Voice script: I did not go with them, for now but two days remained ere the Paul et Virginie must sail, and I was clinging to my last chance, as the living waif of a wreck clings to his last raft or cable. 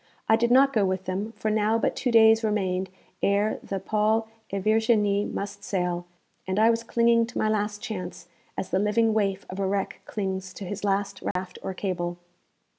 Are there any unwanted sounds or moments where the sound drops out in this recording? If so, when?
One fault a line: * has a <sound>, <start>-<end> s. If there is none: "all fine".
* has a dropout, 11.3-11.4 s